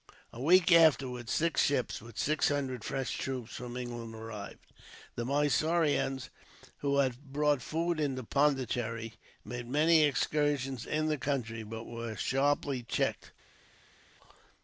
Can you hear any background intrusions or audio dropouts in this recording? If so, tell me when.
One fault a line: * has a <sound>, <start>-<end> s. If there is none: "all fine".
all fine